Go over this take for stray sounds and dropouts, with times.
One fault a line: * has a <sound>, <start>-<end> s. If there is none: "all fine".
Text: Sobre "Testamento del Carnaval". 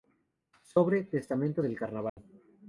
* has a dropout, 2.1-2.2 s